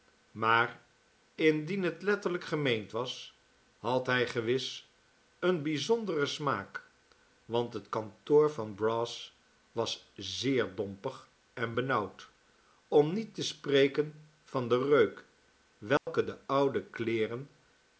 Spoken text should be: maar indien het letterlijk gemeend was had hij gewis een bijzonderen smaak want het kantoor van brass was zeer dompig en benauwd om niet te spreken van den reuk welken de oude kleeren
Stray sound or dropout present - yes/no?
yes